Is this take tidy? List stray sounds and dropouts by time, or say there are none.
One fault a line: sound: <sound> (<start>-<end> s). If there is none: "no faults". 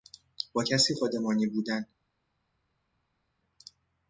no faults